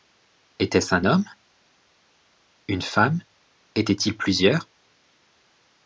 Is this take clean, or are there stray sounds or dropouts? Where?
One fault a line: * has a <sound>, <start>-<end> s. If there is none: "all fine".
all fine